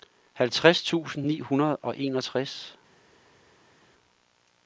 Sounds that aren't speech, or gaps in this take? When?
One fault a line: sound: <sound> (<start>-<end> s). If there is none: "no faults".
no faults